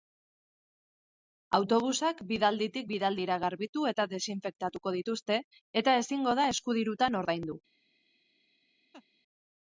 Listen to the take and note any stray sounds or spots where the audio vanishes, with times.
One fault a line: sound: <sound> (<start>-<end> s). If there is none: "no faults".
sound: laugh (8.9-9.0 s)